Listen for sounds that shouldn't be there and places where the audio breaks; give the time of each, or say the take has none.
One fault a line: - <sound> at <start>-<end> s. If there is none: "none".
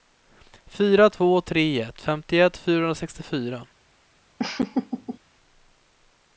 - laugh at 4.4-5.2 s